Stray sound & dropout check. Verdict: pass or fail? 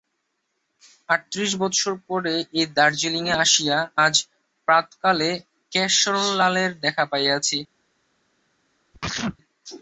fail